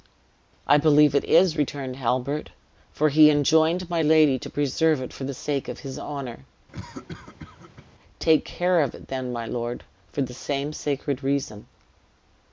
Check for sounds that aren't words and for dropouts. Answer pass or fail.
fail